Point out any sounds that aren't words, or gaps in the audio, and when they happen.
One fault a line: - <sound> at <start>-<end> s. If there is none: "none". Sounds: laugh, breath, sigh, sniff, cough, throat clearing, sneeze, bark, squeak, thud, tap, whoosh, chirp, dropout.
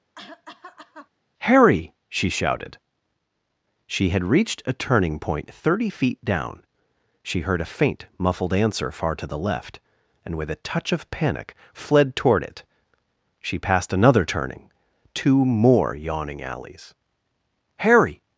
- cough at 0.2-1.1 s